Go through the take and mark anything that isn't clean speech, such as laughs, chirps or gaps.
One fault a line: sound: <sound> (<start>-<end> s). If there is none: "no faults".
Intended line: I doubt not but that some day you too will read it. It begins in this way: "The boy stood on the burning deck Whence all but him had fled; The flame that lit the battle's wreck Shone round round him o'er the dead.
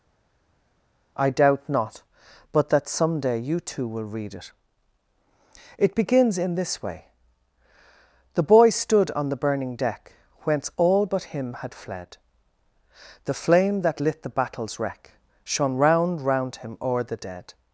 no faults